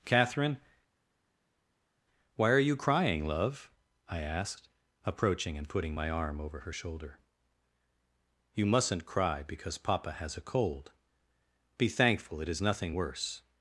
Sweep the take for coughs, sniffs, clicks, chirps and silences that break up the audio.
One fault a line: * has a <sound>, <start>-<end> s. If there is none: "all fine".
all fine